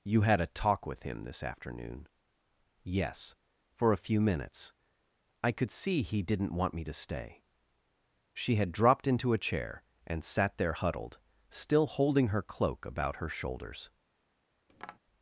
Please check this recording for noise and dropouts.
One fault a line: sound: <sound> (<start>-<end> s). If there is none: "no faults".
sound: tap (14.7-15.0 s)